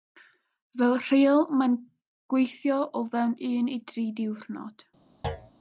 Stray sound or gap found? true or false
true